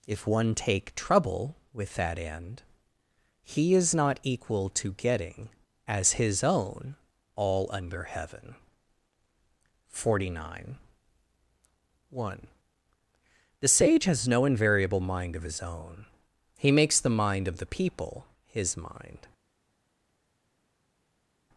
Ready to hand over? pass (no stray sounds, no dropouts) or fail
pass